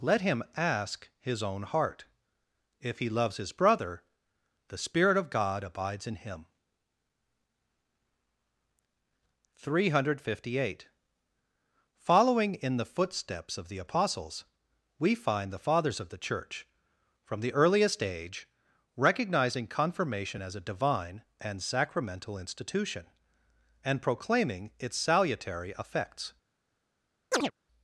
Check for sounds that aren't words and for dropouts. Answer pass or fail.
fail